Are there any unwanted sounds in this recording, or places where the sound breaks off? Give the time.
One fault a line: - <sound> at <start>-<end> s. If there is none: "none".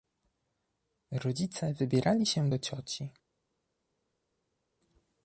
none